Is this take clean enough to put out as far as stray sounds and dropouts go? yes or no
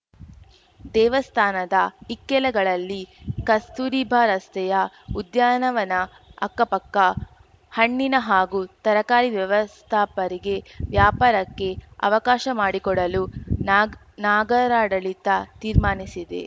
yes